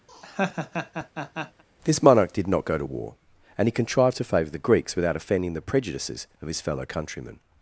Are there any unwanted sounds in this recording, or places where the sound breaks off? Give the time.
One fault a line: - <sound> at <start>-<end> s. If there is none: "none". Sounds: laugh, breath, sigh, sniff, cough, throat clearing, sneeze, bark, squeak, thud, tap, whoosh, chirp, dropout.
- laugh at 0.1-1.6 s